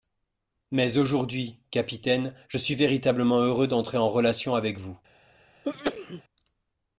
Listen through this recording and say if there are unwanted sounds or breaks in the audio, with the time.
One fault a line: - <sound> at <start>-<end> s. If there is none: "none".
- sneeze at 5.6-6.2 s